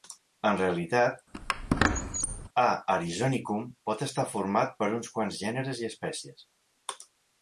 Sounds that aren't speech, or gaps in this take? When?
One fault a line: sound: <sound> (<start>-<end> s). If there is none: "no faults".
sound: squeak (1.3-2.5 s)